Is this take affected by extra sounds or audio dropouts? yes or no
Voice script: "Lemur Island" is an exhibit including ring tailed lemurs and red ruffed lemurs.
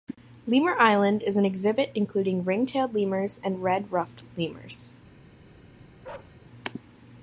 yes